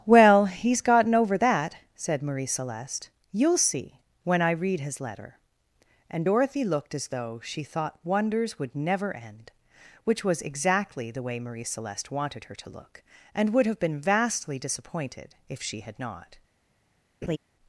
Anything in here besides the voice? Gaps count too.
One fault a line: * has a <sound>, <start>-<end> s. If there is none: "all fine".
* has a laugh, 17.2-17.4 s